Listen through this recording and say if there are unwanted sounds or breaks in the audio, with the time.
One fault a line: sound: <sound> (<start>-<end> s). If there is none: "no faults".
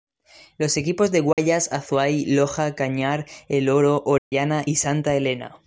sound: dropout (1.3-1.4 s)
sound: dropout (4.2-4.3 s)